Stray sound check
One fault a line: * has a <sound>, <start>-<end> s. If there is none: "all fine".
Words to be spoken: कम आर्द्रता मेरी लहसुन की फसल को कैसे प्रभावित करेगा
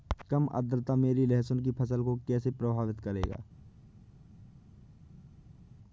all fine